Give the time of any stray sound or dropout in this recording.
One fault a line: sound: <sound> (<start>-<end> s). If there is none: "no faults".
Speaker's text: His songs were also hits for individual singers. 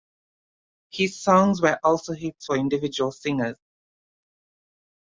no faults